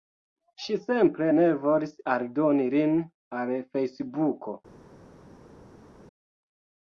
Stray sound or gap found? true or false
false